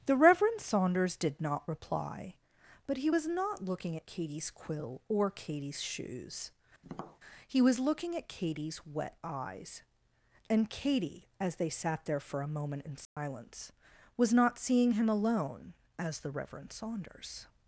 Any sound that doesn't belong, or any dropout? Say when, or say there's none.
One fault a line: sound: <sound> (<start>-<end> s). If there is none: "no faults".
sound: tap (6.8-7.2 s)
sound: dropout (13.1-13.2 s)